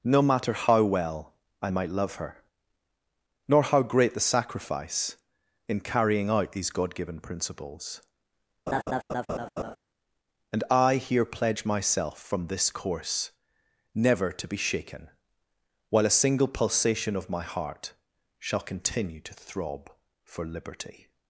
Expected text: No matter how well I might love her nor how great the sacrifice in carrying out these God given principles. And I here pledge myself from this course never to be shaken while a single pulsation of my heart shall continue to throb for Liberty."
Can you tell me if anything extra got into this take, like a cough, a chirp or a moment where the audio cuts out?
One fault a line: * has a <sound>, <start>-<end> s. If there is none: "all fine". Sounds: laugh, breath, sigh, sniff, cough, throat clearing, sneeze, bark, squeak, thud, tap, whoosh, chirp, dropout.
* has a laugh, 8.7-9.8 s